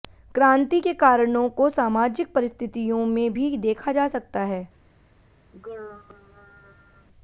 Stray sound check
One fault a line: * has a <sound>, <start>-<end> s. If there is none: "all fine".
* has a throat clearing, 5.5-7.1 s